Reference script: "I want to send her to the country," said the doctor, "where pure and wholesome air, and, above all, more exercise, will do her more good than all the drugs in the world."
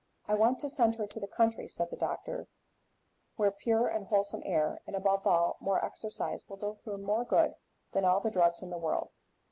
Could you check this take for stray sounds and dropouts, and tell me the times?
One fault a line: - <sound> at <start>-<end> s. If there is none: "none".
none